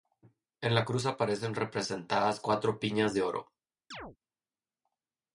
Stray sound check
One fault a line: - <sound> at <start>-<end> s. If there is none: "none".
- chirp at 3.9-4.2 s